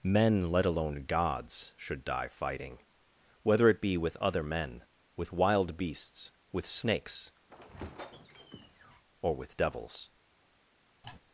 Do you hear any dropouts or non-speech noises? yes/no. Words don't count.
yes